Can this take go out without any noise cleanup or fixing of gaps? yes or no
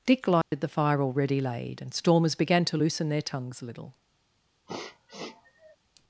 no